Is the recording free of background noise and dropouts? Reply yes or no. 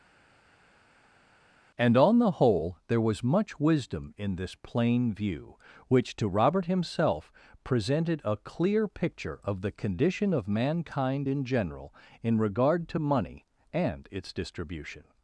yes